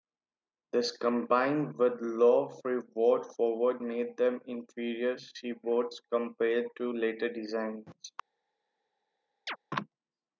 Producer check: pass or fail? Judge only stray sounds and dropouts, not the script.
fail